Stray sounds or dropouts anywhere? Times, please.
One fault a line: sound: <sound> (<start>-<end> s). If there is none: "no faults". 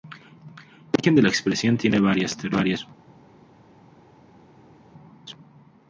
no faults